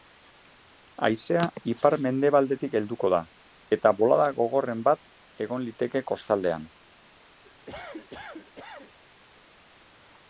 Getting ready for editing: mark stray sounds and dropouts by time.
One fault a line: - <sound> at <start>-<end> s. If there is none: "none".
- cough at 7.4-9.0 s